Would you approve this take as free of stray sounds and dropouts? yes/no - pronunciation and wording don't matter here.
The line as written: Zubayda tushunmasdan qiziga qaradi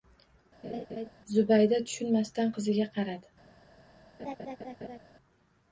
no